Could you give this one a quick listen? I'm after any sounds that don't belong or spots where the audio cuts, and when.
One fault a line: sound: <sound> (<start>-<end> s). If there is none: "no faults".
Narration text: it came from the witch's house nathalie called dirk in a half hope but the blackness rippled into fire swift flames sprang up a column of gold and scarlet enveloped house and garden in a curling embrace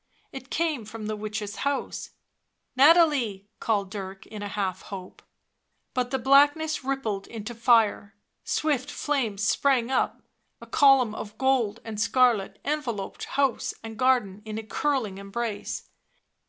no faults